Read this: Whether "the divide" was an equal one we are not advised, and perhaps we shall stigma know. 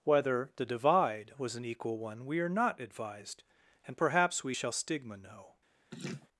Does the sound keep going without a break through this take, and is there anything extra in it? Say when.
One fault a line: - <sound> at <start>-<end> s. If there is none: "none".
- laugh at 5.9-6.3 s